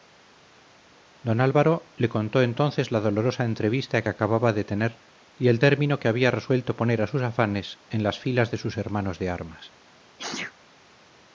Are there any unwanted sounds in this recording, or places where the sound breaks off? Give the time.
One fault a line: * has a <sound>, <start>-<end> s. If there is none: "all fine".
* has a sneeze, 10.2-10.5 s